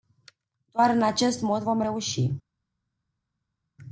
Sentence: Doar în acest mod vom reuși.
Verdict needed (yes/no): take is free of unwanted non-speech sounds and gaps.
yes